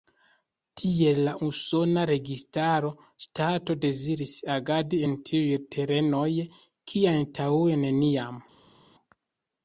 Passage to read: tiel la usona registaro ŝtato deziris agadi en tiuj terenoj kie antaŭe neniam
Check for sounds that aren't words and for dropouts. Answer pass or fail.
pass